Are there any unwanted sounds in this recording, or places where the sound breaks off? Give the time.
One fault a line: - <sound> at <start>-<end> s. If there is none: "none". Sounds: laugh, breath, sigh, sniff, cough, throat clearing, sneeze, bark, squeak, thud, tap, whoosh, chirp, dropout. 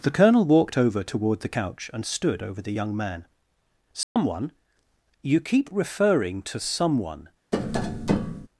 - dropout at 4.0-4.2 s
- tap at 7.5-8.5 s